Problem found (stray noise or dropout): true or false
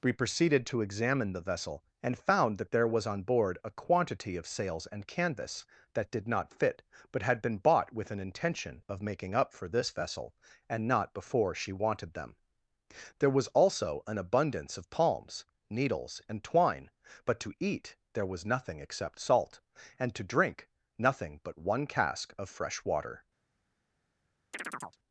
true